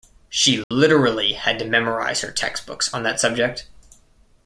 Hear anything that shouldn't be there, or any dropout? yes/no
yes